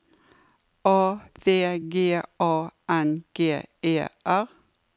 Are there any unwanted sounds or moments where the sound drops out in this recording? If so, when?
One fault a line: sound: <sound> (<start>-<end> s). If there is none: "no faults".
no faults